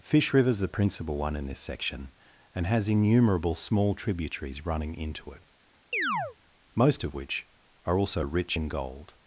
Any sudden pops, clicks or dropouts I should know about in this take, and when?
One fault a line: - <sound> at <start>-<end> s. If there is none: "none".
- chirp at 5.9-6.4 s